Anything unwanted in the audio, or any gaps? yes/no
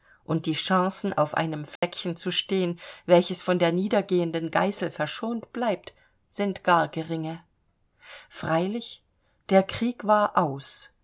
yes